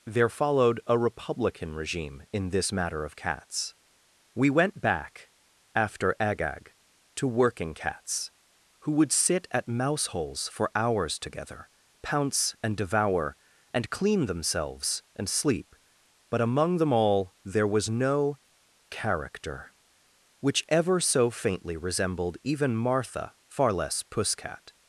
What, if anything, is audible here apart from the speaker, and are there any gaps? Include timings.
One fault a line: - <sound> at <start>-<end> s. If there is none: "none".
none